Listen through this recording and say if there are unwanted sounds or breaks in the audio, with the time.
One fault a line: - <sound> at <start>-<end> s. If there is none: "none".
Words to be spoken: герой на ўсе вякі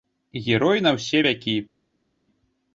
none